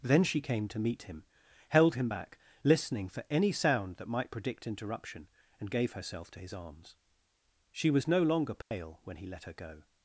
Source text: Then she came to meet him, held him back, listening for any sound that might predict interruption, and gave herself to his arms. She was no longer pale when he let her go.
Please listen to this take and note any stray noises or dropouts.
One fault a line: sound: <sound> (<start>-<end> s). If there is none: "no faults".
sound: dropout (8.6-8.7 s)